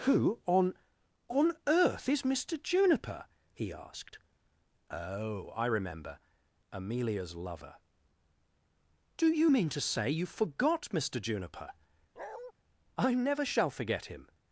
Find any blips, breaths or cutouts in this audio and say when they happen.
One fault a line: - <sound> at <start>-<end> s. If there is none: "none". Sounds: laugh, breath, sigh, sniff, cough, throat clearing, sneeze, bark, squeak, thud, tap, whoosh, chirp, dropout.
- bark at 12.2-12.5 s